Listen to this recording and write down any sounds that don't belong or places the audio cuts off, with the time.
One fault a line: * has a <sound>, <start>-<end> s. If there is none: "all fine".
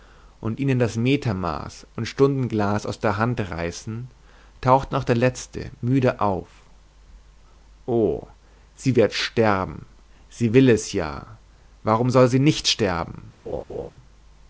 * has a laugh, 13.5-13.9 s